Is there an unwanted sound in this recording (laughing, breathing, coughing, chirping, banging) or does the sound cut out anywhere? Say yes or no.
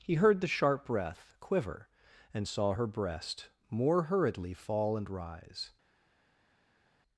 no